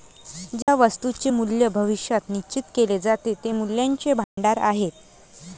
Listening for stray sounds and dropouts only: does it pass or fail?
fail